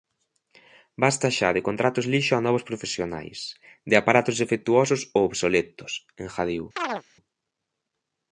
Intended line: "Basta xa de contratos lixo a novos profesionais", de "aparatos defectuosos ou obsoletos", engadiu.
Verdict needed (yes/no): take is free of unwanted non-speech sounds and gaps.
no